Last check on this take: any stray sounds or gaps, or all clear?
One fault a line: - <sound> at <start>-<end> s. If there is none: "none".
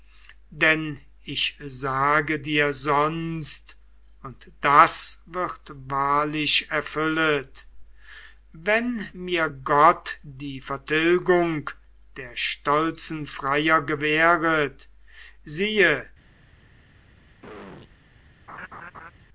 - throat clearing at 17.4-17.9 s
- laugh at 18.5-19.1 s